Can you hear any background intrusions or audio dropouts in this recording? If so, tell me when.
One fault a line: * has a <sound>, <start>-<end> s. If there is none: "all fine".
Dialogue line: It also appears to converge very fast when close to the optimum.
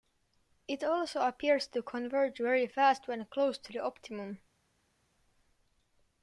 all fine